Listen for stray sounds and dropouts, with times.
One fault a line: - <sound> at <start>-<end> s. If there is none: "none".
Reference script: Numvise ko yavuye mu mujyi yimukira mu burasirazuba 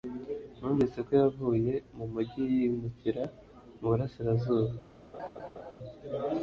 - laugh at 5.1-5.7 s